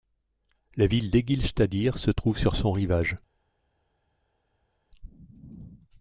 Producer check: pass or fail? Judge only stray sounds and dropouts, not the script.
pass